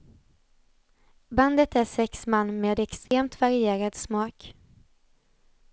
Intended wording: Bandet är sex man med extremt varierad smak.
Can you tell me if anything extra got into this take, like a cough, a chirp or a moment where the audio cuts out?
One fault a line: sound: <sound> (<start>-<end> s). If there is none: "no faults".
sound: dropout (3.1-3.1 s)